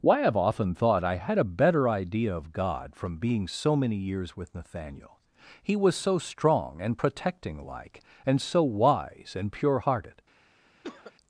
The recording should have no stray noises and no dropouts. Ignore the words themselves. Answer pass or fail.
fail